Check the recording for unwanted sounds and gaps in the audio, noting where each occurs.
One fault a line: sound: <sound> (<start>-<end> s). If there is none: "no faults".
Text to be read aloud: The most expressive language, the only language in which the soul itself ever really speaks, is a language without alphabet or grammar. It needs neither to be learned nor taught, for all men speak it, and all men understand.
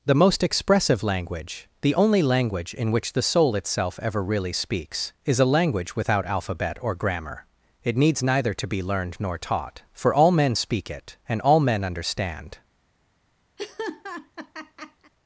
sound: laugh (13.6-15.1 s)